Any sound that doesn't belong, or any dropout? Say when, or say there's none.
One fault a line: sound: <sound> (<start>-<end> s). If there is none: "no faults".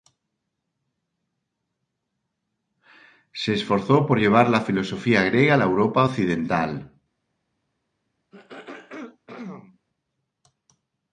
sound: throat clearing (8.3-9.8 s)